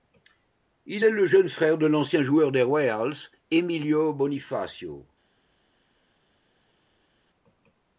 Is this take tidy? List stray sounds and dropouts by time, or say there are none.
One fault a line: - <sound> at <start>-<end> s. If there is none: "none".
none